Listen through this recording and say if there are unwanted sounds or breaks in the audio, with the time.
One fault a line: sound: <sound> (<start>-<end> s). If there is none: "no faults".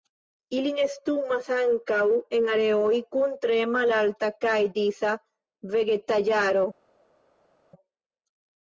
no faults